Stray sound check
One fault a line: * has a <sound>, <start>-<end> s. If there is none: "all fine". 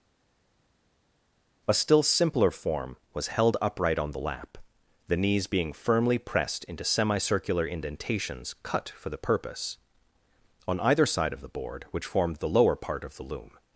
all fine